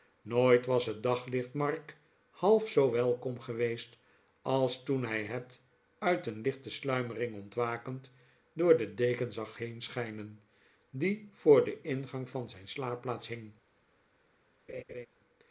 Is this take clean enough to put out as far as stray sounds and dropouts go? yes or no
no